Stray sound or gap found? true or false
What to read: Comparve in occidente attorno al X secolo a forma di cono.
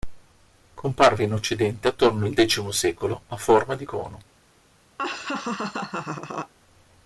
true